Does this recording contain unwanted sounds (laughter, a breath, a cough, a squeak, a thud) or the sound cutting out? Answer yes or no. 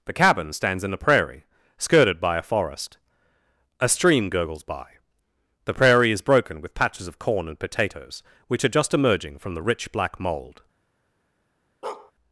yes